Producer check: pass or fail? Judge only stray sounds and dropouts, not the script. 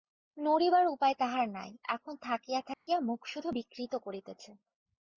fail